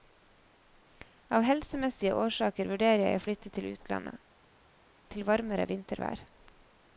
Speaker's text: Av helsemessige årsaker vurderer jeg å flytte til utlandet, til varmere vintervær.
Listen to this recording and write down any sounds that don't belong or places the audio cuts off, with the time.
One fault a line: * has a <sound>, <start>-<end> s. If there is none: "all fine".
all fine